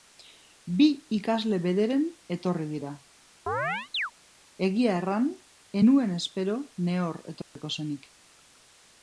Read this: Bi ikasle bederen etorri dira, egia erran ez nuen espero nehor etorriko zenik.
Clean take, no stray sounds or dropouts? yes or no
no